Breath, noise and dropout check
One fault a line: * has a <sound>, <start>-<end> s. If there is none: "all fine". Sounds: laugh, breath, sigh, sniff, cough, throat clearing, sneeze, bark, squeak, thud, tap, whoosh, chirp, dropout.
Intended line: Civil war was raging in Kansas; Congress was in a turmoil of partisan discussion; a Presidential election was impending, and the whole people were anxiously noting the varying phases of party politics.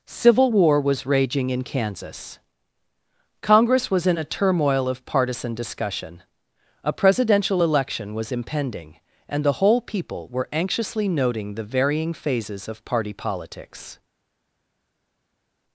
all fine